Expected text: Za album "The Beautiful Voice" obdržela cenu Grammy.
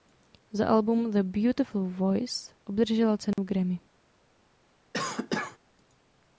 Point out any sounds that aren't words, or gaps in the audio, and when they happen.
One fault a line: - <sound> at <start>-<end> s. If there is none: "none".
- dropout at 3.3-3.4 s
- cough at 4.9-5.6 s